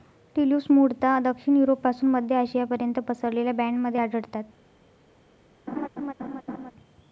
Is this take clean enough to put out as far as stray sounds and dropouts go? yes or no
no